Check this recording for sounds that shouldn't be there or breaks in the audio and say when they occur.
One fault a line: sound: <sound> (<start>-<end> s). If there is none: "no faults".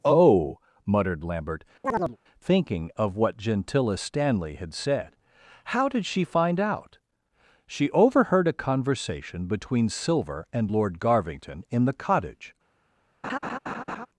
sound: chirp (1.8-2.2 s)
sound: laugh (13.2-14.1 s)